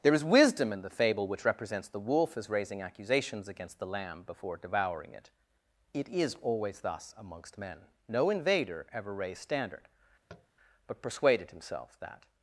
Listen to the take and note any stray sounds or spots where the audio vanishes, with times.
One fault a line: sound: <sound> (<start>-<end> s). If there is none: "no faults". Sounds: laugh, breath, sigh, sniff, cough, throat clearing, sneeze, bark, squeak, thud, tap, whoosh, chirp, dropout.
sound: tap (10.3-10.5 s)